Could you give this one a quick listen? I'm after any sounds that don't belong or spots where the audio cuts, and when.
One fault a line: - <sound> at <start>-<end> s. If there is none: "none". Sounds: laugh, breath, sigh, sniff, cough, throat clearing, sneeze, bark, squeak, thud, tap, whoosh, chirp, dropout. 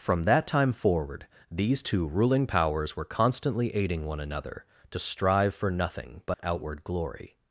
- dropout at 6.3-6.4 s